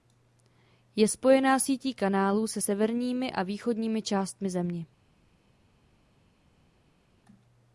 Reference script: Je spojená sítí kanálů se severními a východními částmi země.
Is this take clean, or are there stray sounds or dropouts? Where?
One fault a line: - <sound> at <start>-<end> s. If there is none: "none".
none